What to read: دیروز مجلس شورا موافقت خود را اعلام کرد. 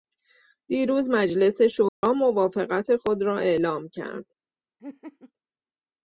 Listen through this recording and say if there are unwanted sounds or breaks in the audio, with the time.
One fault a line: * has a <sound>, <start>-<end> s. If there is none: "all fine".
* has a dropout, 1.9-2.0 s
* has a laugh, 4.8-5.3 s